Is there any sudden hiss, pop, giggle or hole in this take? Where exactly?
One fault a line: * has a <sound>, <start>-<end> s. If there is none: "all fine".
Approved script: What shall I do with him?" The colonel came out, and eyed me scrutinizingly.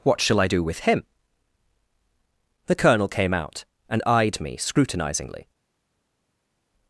all fine